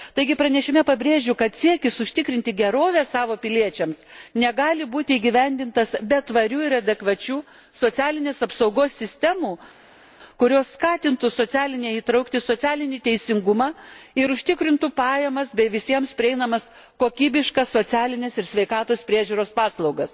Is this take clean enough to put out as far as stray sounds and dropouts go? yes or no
yes